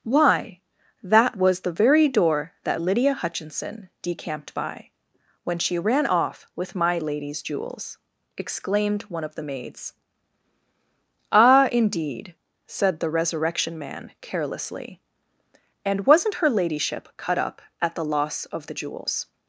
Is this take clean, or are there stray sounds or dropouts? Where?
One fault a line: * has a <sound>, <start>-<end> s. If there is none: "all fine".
all fine